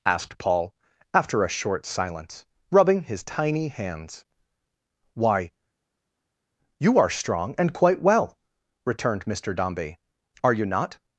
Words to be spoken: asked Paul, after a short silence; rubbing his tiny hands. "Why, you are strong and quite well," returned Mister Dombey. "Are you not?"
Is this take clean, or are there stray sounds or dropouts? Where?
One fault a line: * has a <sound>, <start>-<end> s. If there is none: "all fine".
all fine